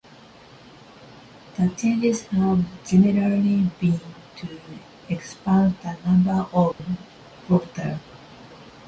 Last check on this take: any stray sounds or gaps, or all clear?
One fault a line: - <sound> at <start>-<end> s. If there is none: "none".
- dropout at 6.7-6.8 s